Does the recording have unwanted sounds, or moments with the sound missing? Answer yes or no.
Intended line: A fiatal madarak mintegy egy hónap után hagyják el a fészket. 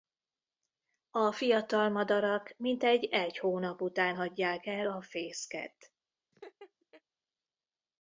yes